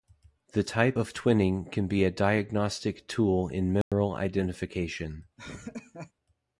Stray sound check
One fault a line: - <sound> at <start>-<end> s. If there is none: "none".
- dropout at 3.8-3.9 s
- laugh at 5.4-6.1 s